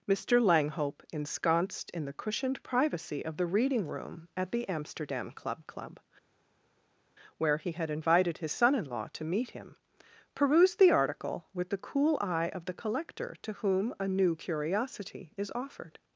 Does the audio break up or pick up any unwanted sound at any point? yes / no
no